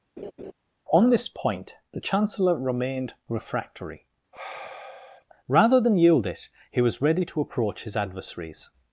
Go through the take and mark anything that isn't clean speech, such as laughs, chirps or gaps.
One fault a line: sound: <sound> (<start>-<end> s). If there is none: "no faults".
sound: laugh (0.2-0.5 s)
sound: sigh (4.3-5.2 s)